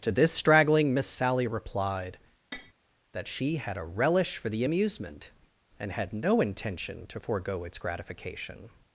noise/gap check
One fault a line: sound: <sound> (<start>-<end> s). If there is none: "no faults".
sound: tap (2.5-2.7 s)